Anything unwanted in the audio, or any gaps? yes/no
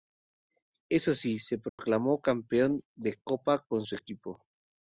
yes